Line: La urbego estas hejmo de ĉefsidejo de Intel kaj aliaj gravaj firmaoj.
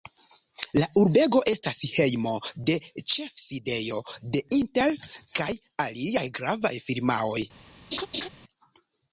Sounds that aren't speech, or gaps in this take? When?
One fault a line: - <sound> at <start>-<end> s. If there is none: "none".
- laugh at 7.9-8.3 s